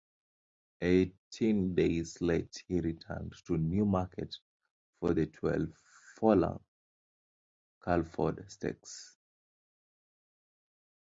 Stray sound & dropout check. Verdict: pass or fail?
pass